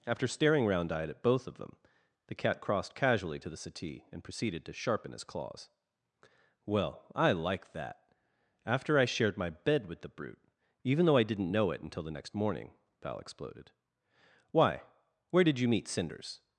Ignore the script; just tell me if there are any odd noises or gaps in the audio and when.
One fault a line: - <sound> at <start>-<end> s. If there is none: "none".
none